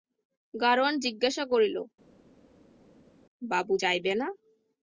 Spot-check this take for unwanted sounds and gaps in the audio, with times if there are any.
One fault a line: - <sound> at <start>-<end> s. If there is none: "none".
none